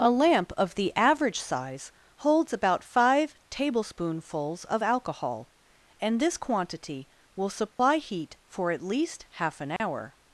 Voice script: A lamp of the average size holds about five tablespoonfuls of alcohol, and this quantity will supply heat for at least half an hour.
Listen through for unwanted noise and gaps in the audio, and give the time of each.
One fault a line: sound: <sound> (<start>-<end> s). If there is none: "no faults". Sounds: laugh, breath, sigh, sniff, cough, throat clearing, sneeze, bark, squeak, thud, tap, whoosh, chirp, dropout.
sound: dropout (7.7-7.8 s)
sound: dropout (9.8-9.8 s)